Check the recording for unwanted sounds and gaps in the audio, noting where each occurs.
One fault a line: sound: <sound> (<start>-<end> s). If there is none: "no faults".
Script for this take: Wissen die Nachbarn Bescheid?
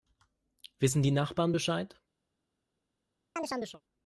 sound: chirp (3.4-3.8 s)